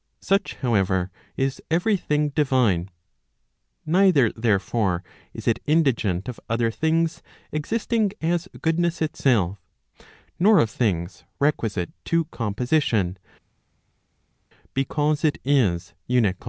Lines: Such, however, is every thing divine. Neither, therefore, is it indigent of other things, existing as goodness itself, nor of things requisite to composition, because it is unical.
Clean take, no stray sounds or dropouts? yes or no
yes